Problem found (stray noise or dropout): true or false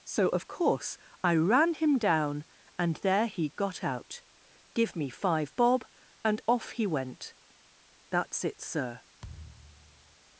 true